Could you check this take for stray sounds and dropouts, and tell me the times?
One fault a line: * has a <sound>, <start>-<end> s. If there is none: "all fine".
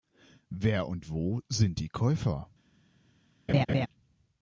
* has a laugh, 3.5-3.9 s